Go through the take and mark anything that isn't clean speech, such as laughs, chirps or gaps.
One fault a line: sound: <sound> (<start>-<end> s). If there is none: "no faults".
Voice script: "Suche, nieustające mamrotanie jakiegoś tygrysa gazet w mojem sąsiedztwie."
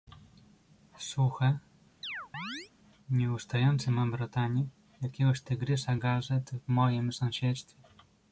sound: chirp (2.0-2.7 s)